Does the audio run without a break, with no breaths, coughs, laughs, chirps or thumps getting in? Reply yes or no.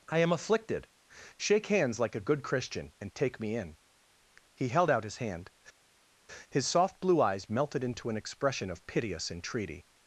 yes